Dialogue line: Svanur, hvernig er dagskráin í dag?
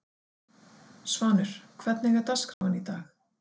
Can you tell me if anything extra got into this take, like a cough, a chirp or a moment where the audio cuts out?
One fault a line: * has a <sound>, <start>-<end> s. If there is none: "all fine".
* has a dropout, 2.5-2.6 s